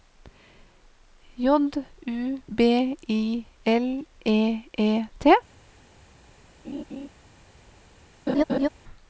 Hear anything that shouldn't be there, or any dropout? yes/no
yes